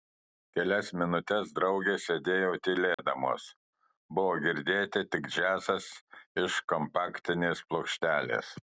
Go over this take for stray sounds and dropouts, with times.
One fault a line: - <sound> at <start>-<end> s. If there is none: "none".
- dropout at 2.9-3.0 s